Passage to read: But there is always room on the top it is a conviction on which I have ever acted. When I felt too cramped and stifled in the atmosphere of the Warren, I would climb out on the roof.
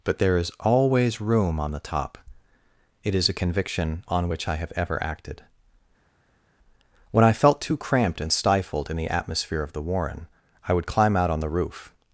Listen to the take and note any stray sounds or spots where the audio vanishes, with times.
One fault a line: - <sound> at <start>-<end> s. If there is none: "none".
none